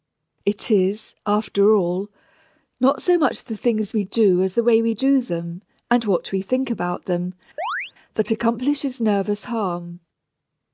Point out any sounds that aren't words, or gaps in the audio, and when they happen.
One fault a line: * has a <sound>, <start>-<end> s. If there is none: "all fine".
* has a chirp, 7.6-7.9 s